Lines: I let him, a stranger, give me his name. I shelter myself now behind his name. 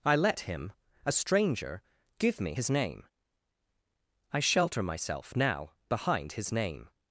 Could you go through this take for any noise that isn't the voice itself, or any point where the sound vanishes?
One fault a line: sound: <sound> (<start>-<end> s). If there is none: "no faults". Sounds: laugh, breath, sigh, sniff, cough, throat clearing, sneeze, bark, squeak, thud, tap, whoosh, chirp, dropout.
no faults